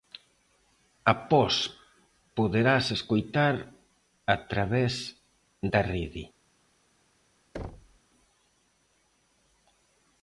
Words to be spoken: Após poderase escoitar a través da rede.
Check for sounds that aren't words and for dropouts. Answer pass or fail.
fail